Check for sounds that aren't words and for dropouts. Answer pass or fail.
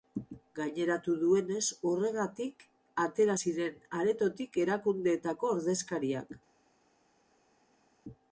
pass